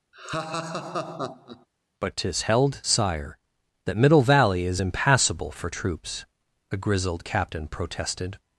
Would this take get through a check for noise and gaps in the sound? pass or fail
fail